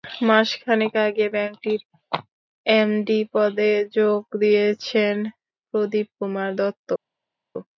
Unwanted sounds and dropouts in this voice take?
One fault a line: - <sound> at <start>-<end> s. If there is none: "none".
none